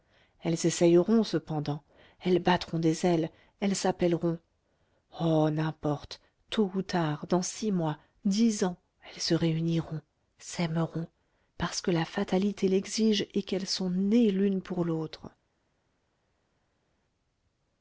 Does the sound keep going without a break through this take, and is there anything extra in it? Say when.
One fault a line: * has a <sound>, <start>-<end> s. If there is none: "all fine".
all fine